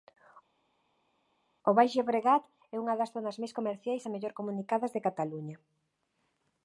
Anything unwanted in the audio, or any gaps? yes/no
no